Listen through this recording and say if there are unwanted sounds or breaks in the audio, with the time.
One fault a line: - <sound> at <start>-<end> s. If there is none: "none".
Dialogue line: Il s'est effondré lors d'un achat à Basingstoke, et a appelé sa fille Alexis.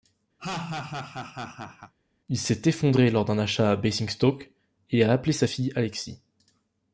- laugh at 0.4-1.9 s